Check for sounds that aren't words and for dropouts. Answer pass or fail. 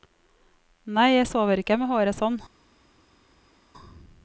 pass